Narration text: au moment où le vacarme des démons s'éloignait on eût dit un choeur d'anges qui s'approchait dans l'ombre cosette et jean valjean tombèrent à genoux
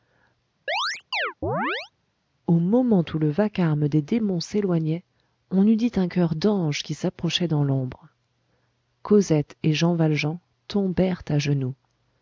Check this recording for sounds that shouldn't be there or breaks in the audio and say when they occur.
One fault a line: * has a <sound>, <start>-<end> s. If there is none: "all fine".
* has a chirp, 0.7-1.9 s